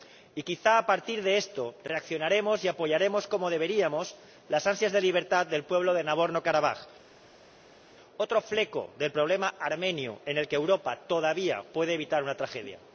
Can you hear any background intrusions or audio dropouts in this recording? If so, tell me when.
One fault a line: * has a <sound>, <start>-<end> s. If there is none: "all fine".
all fine